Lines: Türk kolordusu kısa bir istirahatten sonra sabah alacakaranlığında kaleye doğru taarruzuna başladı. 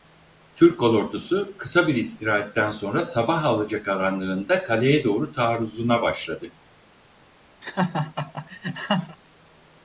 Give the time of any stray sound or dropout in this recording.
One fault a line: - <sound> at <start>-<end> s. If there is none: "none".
- laugh at 7.6-9.2 s